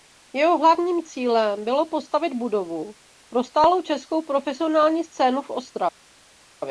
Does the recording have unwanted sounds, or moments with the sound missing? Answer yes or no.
no